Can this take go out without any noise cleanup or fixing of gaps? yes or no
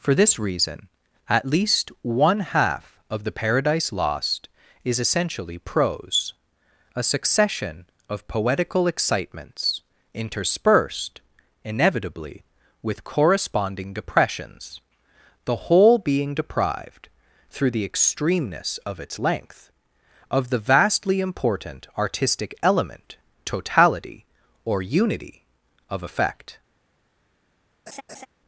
no